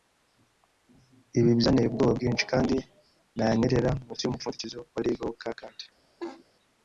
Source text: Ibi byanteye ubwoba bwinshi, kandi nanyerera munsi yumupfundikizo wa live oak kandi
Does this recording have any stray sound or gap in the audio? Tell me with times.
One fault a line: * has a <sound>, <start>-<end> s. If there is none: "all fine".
* has a laugh, 6.2-6.4 s